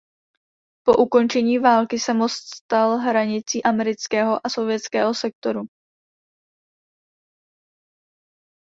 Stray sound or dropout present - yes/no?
no